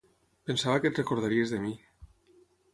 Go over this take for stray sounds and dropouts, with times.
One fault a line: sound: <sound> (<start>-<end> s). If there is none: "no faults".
no faults